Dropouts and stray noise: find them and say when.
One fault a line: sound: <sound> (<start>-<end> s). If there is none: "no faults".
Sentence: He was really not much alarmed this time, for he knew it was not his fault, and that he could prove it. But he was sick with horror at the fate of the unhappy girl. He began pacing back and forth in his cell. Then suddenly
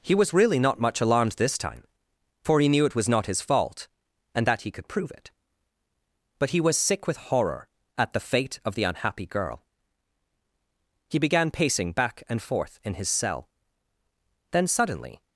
no faults